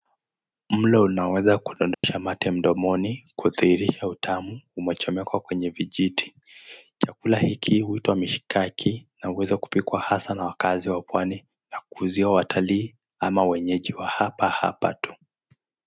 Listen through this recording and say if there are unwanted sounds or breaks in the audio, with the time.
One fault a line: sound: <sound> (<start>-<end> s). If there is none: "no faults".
sound: dropout (1.9-2.0 s)